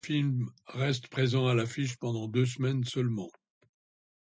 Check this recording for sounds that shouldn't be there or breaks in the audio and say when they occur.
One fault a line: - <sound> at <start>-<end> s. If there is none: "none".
none